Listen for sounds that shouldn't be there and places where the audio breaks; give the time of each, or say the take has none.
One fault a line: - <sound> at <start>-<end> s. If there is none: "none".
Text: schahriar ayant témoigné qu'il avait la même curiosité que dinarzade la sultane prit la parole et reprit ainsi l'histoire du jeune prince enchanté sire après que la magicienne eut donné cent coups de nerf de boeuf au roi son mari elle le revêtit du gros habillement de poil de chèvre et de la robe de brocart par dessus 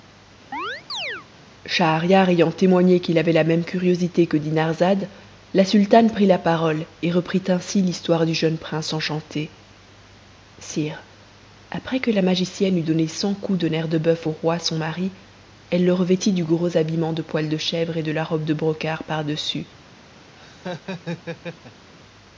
- chirp at 0.5-1.3 s
- laugh at 20.3-21.9 s